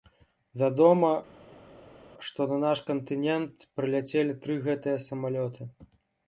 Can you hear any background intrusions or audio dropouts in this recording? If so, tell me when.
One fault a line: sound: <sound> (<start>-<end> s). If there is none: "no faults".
no faults